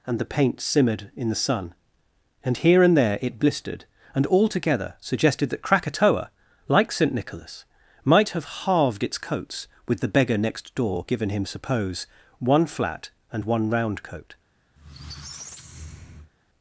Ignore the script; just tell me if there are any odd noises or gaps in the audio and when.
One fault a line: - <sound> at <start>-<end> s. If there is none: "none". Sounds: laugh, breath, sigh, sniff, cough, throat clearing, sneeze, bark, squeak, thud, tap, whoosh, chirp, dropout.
- squeak at 14.8-16.3 s